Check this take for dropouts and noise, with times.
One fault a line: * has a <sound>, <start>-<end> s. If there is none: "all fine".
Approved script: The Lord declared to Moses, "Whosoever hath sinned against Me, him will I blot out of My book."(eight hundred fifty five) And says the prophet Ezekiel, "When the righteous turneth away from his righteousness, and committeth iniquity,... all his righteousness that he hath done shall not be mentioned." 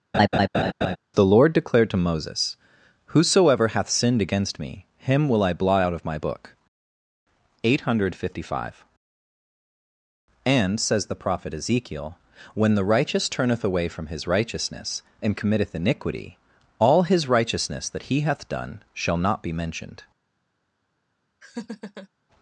* has a laugh, 0.1-1.0 s
* has a laugh, 21.4-22.1 s